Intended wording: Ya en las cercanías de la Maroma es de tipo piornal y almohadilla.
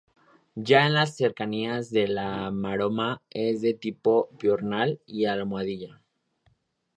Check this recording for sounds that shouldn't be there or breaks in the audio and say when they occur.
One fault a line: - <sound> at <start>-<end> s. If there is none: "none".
none